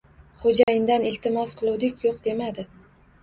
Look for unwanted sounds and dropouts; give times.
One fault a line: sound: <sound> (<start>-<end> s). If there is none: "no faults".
sound: dropout (0.6-0.7 s)